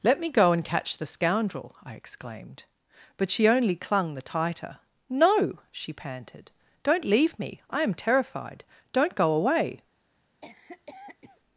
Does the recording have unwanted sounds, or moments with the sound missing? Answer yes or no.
yes